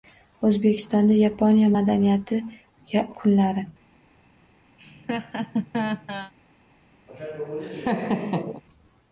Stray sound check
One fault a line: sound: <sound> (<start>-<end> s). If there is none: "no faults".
sound: laugh (4.8-6.3 s)
sound: laugh (7.1-8.6 s)